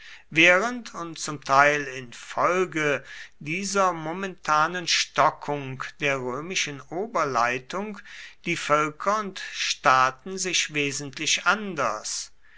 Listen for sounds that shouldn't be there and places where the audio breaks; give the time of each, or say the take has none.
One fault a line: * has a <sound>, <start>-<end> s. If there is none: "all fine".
all fine